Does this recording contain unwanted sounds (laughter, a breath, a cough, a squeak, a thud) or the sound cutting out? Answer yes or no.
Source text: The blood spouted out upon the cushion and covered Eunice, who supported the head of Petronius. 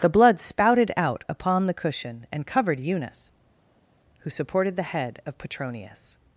no